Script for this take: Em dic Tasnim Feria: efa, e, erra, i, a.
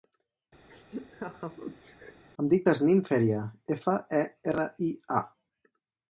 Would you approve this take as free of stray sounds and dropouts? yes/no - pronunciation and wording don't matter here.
no